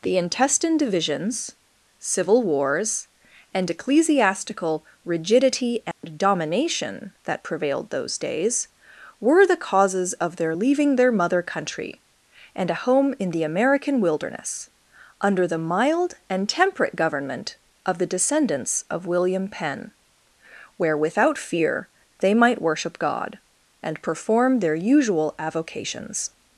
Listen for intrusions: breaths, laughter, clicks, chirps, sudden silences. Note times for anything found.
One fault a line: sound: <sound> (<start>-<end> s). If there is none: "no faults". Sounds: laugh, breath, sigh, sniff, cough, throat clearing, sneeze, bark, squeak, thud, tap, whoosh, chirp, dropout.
sound: dropout (5.9-6.0 s)